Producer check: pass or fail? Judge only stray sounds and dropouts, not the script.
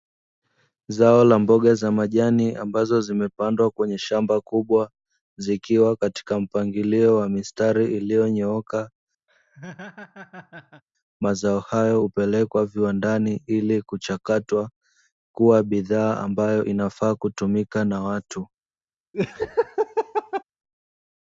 fail